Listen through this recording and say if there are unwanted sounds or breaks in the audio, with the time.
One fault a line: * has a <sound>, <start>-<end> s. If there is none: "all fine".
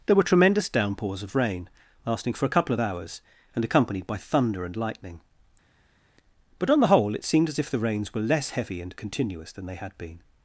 all fine